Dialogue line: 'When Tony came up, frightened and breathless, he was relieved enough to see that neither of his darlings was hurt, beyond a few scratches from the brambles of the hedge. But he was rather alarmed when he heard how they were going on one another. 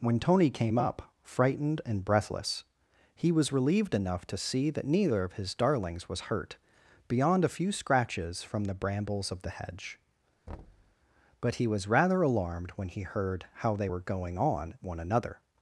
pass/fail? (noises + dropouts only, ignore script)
fail